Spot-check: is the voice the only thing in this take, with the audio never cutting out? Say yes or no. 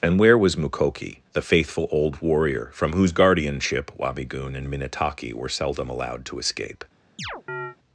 no